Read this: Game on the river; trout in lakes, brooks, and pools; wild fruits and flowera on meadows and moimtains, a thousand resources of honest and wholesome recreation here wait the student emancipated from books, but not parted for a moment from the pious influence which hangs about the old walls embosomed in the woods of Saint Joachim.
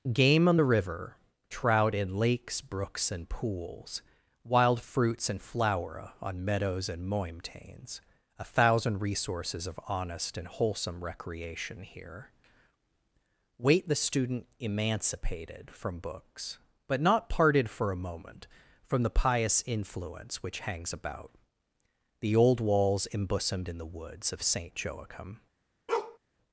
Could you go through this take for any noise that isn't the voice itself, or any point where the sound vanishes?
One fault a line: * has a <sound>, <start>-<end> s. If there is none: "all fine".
* has a bark, 25.9-26.2 s